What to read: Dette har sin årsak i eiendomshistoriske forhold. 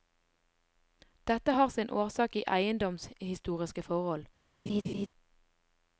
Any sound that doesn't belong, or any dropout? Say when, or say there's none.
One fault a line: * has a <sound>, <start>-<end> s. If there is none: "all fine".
* has a laugh, 4.7-5.1 s